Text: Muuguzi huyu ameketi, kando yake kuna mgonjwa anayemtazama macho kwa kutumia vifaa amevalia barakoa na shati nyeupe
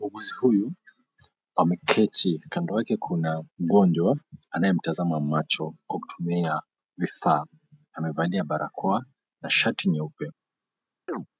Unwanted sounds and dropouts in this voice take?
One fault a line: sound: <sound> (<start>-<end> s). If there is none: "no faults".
sound: chirp (11.1-11.3 s)